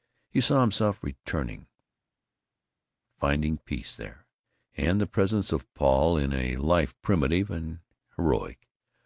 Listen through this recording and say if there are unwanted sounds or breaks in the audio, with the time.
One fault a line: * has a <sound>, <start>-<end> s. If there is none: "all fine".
all fine